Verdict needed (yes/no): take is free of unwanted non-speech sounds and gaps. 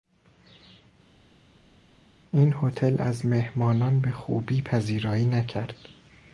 yes